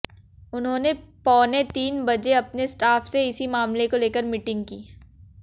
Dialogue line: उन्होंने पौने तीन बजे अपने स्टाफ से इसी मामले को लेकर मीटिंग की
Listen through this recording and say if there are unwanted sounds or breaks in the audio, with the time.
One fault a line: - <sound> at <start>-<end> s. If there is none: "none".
none